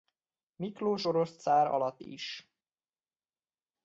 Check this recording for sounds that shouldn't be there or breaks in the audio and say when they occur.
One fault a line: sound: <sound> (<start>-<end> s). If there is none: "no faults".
no faults